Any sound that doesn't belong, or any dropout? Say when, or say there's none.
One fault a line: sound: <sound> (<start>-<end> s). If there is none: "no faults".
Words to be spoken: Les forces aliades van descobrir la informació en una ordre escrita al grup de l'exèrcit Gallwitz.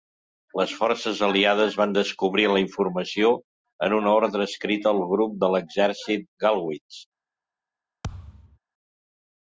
sound: thud (8.0-8.6 s)